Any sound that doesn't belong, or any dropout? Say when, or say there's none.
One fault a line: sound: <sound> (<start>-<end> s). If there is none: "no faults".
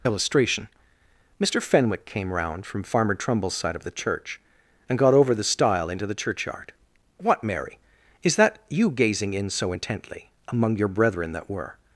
no faults